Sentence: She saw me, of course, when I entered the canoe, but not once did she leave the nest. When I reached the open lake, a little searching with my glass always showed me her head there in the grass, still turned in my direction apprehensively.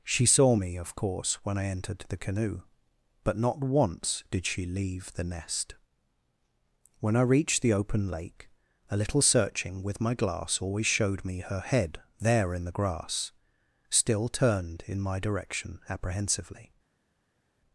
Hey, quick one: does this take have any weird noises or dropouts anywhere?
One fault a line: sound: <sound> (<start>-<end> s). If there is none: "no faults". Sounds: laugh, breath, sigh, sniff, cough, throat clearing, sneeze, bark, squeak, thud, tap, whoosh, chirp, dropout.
no faults